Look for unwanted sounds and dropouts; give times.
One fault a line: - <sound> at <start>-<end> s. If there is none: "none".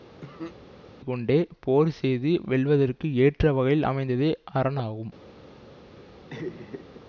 - cough at 0.2-0.6 s
- laugh at 6.3-7.0 s